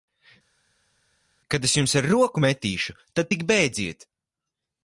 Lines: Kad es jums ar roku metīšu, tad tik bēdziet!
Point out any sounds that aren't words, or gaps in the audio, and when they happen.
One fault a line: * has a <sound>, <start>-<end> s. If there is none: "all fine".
all fine